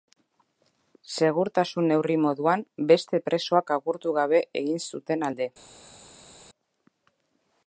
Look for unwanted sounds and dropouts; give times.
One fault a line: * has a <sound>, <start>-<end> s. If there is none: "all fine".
all fine